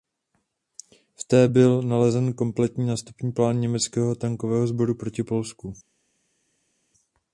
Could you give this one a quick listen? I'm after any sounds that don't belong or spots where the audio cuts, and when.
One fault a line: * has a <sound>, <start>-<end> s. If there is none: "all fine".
all fine